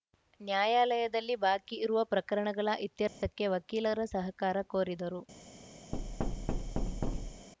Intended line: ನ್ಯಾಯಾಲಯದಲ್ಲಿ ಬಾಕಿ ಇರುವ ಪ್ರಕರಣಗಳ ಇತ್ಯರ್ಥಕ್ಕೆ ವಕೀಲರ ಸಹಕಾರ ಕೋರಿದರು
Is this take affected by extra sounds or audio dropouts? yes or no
yes